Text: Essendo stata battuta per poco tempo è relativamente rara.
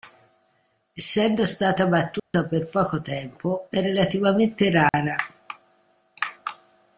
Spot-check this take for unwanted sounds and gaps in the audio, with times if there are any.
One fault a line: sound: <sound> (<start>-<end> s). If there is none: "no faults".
sound: dropout (2.2-2.3 s)
sound: dropout (4.9-4.9 s)